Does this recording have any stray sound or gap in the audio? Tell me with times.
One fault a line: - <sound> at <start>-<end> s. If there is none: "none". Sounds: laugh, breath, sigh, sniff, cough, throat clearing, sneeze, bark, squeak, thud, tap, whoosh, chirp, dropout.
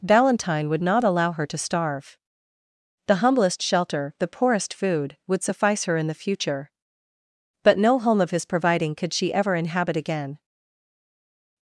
none